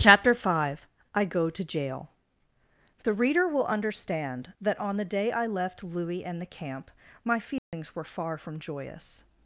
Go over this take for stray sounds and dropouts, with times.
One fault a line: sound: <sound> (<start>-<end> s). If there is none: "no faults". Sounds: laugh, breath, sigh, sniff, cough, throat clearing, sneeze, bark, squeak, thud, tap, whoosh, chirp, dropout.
sound: dropout (7.6-7.7 s)